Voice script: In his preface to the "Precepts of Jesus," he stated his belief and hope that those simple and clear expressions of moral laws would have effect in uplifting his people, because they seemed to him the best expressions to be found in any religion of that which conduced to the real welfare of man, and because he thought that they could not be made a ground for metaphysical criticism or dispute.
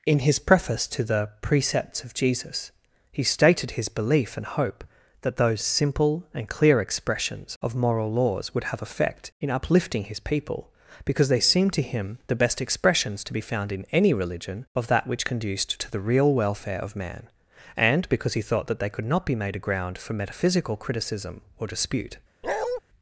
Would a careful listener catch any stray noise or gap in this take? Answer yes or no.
yes